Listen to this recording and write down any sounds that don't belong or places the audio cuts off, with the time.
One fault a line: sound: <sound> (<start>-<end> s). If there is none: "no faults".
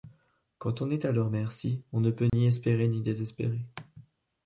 sound: dropout (2.3-2.3 s)